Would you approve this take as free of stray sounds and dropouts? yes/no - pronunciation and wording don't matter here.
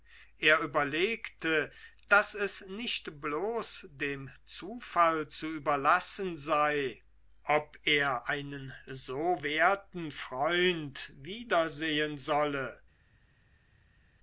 yes